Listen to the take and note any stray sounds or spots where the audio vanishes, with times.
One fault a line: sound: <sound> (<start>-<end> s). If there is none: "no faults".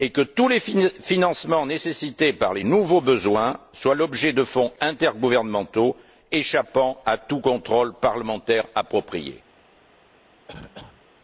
sound: cough (10.5-11.0 s)